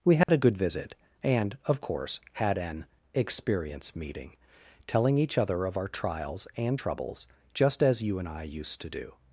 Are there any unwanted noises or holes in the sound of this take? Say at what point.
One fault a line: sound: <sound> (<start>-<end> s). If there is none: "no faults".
sound: dropout (0.2-0.3 s)